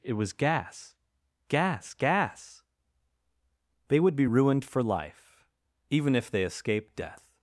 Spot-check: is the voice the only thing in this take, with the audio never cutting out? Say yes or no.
yes